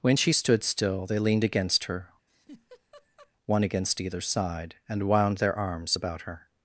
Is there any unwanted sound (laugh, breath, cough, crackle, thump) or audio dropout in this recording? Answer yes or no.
yes